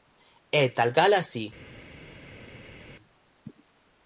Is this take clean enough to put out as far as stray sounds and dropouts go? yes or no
yes